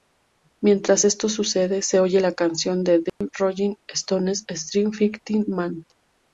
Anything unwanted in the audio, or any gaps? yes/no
yes